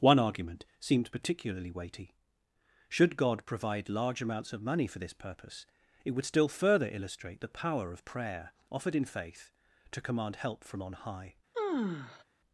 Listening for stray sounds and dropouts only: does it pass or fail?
fail